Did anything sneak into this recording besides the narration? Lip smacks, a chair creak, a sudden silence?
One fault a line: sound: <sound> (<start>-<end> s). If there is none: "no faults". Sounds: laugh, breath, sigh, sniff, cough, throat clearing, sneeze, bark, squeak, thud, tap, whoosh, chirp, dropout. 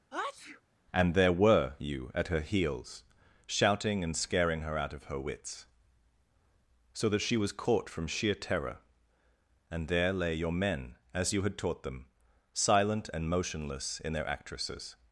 sound: sneeze (0.1-0.6 s)